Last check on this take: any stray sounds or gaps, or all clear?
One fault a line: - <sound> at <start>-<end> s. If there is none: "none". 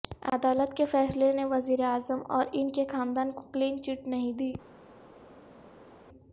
none